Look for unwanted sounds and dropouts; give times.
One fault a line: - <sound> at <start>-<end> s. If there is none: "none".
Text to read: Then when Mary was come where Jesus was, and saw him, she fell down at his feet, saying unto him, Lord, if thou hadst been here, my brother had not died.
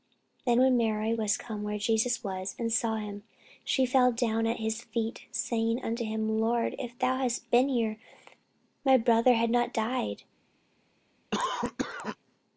- cough at 11.3-12.2 s